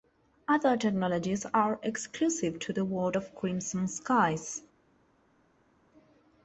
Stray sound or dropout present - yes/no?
no